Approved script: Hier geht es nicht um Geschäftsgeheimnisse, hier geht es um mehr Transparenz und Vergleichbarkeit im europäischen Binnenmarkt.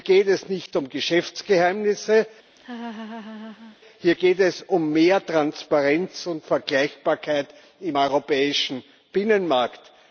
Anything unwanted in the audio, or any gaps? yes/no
yes